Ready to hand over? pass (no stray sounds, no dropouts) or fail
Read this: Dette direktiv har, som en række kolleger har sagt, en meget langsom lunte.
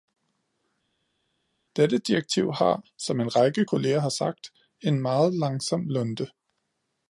pass